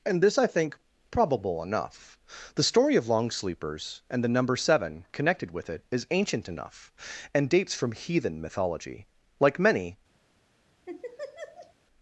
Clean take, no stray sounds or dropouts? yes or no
no